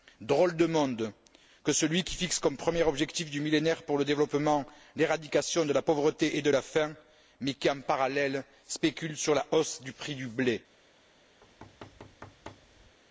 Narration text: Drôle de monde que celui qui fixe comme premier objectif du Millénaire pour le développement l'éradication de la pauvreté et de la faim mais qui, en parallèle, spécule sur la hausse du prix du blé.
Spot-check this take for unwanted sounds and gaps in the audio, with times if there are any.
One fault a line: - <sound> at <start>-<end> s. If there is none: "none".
- thud at 11.4-13.0 s